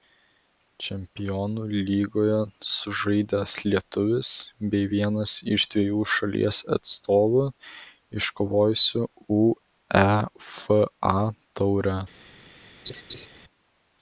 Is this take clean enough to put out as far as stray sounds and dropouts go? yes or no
no